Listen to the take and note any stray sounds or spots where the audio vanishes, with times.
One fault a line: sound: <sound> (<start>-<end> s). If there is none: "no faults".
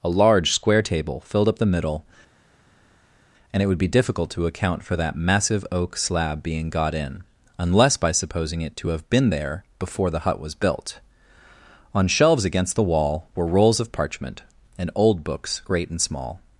no faults